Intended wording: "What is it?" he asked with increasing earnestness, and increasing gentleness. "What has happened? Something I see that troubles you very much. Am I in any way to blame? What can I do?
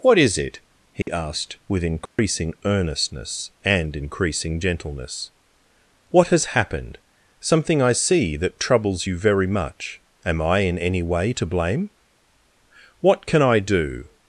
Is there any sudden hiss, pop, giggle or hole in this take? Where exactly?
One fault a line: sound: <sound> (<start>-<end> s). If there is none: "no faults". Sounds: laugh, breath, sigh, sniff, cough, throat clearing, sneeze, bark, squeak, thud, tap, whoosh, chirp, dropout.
sound: dropout (1.0-1.1 s)
sound: dropout (2.1-2.2 s)